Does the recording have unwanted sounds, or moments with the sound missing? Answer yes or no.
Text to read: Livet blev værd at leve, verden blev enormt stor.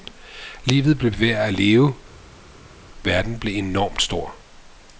no